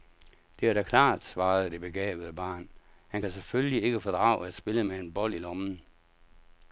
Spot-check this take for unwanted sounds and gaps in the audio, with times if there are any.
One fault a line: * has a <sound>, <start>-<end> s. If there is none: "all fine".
all fine